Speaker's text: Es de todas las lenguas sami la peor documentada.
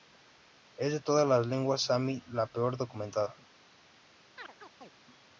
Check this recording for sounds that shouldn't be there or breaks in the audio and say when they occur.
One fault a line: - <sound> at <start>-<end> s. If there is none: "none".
- chirp at 4.4-4.9 s